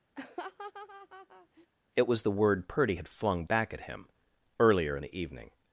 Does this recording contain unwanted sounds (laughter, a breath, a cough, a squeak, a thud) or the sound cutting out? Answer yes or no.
yes